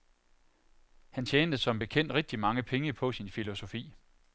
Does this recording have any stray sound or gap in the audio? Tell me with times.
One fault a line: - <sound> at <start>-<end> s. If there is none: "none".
none